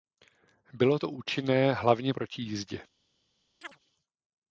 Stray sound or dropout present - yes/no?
yes